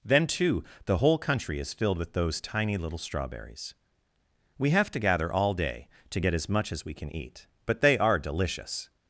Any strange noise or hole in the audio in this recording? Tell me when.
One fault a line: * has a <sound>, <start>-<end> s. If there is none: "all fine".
all fine